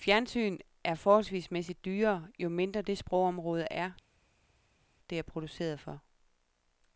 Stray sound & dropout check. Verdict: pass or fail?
pass